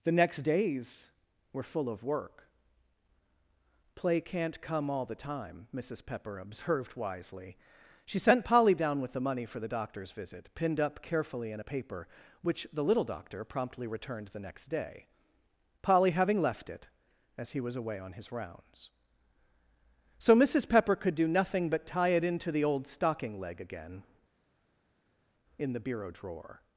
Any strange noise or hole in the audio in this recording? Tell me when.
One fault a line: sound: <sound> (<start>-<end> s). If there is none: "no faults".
no faults